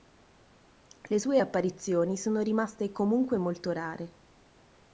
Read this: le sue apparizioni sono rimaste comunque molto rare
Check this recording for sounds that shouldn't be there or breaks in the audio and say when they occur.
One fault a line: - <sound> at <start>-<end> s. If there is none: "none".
none